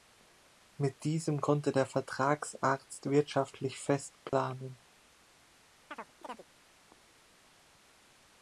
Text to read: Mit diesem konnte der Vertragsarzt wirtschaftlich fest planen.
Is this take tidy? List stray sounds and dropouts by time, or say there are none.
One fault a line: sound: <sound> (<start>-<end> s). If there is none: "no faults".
sound: dropout (4.3-4.3 s)
sound: chirp (5.9-6.5 s)